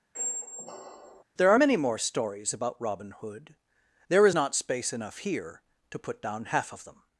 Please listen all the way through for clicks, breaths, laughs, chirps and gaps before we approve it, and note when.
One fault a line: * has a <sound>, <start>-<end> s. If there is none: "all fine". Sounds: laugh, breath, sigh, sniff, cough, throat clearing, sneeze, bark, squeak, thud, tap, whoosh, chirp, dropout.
* has a squeak, 0.1-1.2 s